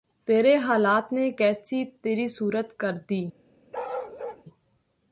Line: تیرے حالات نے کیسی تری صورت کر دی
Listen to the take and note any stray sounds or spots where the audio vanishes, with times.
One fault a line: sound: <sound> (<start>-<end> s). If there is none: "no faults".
sound: bark (3.7-4.4 s)